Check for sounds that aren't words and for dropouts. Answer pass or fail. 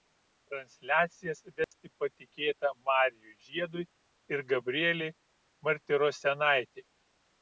fail